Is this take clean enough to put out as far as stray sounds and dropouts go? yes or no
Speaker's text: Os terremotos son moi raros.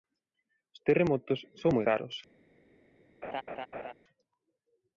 no